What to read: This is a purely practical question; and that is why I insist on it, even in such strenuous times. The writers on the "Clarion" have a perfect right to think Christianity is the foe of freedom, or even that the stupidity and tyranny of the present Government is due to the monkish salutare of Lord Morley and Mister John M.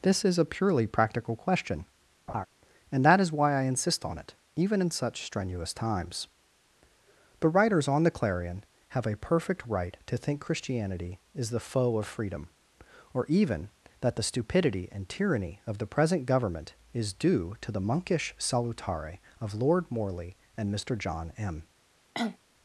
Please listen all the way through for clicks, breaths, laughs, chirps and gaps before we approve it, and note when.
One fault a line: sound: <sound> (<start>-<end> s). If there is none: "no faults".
sound: laugh (2.3-2.5 s)
sound: cough (22.1-22.4 s)